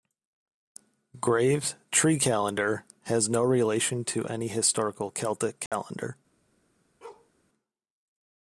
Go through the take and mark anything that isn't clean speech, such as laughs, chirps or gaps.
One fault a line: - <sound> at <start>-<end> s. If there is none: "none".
- dropout at 5.7-5.7 s
- bark at 7.0-7.3 s